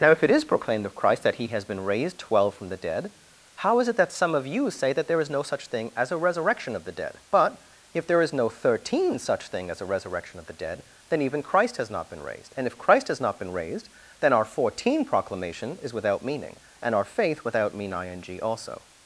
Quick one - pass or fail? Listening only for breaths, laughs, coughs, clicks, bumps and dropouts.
pass